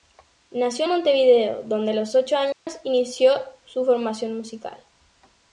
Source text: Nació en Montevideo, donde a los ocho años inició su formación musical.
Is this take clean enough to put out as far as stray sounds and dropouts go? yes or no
no